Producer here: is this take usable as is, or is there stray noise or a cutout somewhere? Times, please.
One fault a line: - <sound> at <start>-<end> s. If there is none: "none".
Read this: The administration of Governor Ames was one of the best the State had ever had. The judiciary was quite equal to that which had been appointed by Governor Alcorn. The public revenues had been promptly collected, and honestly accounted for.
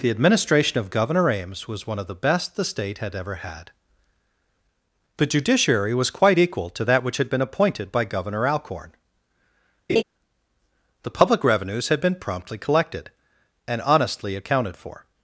- laugh at 9.9-10.0 s